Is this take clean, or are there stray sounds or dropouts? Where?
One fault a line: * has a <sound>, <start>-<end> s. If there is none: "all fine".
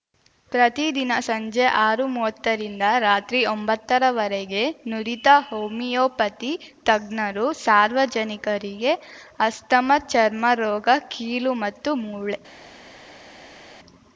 all fine